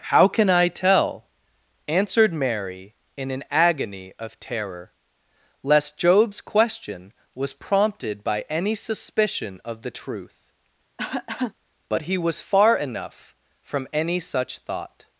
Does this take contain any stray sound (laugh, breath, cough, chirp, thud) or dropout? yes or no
yes